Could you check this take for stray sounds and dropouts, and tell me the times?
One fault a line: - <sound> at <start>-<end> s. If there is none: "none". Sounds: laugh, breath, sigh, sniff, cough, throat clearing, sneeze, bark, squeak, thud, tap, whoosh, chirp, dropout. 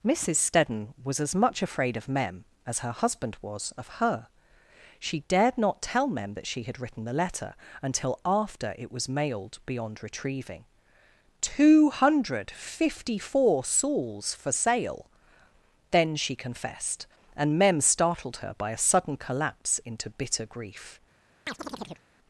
- chirp at 21.5-22.0 s